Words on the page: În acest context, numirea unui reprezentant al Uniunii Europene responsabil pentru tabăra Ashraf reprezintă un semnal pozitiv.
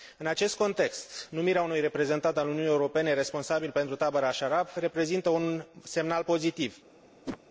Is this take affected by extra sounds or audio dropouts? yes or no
yes